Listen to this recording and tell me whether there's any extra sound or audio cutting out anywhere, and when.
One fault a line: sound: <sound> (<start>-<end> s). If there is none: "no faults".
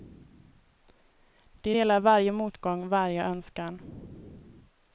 no faults